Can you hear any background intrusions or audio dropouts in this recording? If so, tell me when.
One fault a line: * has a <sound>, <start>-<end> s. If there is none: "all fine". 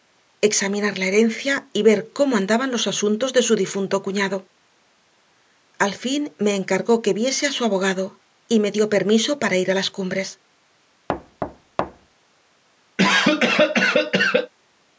* has a thud, 11.1-12.1 s
* has a cough, 13.0-14.5 s